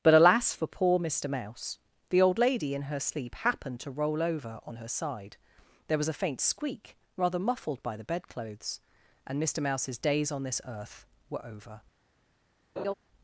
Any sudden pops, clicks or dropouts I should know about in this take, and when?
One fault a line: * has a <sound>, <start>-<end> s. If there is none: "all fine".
* has a laugh, 12.8-12.9 s